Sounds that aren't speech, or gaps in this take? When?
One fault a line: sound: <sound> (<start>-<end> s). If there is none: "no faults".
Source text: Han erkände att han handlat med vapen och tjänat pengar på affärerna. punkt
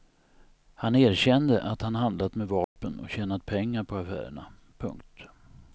sound: dropout (2.6-2.8 s)